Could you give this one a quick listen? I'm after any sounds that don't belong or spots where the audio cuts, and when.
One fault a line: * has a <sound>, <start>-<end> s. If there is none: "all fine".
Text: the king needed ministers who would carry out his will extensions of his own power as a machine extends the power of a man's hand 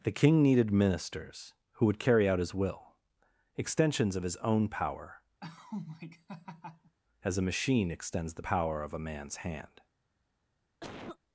* has a laugh, 5.4-7.0 s
* has a cough, 10.8-11.2 s